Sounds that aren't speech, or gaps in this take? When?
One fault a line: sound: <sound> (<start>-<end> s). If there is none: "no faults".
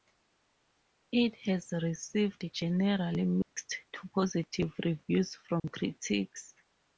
sound: dropout (3.4-3.6 s)
sound: dropout (5.6-5.6 s)